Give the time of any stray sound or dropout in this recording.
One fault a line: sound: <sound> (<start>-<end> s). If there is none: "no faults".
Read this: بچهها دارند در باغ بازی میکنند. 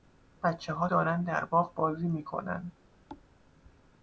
sound: thud (3.1-3.3 s)